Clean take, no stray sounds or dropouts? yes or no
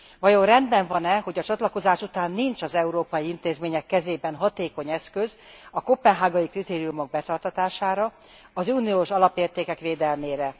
yes